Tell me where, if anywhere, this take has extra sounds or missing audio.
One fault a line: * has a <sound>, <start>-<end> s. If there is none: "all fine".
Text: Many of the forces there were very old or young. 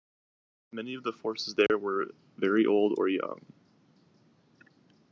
* has a dropout, 1.7-1.7 s